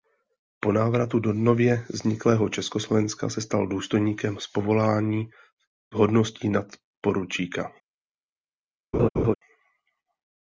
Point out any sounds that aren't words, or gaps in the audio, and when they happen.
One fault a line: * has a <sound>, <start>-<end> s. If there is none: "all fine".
* has a laugh, 8.9-9.4 s